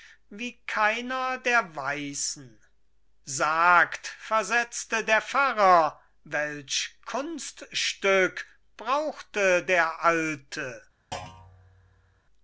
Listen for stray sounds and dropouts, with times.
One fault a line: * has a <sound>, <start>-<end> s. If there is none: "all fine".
* has a thud, 11.1-12.2 s